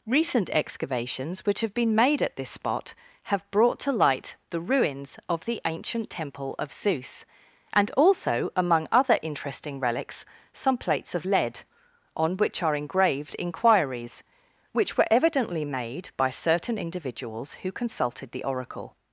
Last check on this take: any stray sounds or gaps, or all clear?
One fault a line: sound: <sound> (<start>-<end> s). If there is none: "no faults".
no faults